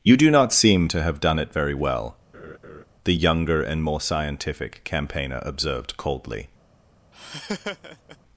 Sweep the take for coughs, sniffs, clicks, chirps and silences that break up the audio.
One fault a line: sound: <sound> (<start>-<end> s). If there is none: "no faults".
sound: laugh (2.3-2.8 s)
sound: laugh (7.1-8.2 s)